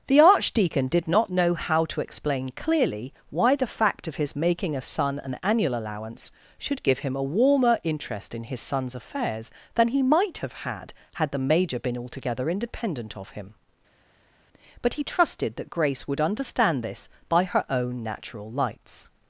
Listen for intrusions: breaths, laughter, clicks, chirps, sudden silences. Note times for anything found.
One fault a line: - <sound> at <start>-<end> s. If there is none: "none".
none